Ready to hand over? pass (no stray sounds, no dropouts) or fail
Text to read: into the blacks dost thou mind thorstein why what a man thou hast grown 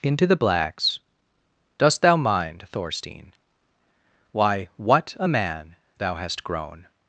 pass